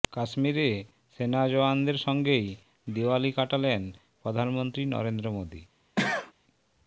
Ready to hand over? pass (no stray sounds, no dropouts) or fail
fail